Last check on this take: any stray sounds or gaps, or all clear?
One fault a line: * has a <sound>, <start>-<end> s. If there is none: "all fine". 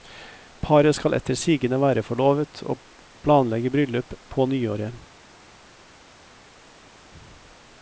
all fine